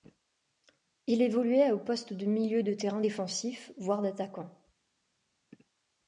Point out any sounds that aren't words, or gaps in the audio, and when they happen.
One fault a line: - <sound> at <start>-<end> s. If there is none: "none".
none